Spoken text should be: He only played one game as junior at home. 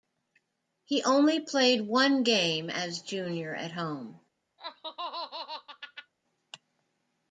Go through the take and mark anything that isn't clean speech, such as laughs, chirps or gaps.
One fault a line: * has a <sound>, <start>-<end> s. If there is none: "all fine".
* has a laugh, 4.6-6.1 s